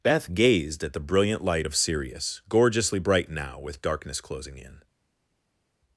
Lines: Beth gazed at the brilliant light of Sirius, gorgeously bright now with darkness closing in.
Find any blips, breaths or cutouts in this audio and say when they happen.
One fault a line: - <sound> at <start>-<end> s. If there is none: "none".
none